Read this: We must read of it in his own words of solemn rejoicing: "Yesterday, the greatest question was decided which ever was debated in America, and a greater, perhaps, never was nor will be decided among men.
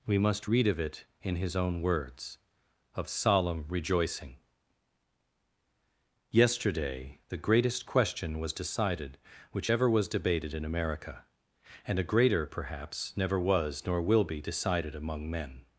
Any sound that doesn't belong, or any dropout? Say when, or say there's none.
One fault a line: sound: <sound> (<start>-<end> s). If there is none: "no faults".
no faults